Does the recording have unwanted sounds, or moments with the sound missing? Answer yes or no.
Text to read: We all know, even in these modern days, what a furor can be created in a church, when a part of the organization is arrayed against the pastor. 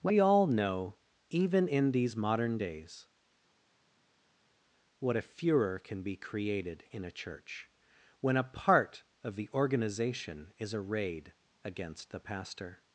no